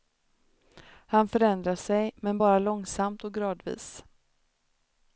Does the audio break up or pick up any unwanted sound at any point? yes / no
no